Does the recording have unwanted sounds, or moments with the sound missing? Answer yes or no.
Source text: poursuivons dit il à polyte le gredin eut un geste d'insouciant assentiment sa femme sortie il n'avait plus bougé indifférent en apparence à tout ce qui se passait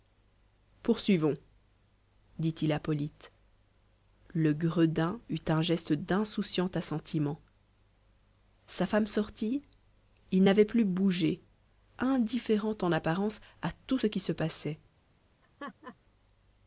yes